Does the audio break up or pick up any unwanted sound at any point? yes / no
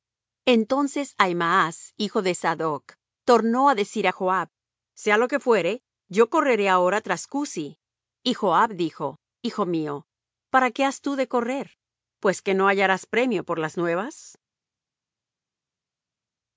no